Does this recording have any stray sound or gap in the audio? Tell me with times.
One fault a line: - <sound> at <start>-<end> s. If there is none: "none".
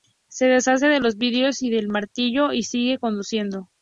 none